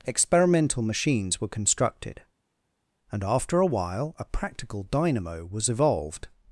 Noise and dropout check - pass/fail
pass